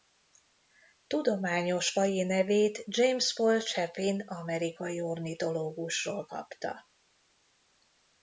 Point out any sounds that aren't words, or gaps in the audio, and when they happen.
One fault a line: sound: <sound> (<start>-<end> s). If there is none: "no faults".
no faults